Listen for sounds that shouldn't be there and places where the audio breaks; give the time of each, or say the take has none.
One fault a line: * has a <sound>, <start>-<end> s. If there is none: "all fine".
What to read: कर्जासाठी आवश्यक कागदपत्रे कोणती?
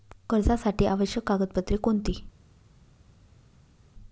all fine